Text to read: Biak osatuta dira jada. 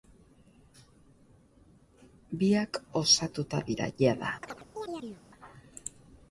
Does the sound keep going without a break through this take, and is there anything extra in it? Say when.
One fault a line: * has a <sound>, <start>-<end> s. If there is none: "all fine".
* has a chirp, 4.4-5.2 s